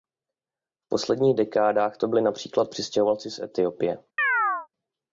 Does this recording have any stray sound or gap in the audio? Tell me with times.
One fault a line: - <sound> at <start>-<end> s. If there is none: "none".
- chirp at 4.2-4.7 s